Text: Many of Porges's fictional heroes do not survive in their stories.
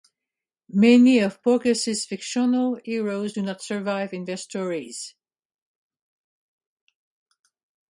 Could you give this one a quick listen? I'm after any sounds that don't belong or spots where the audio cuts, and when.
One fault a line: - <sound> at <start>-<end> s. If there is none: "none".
none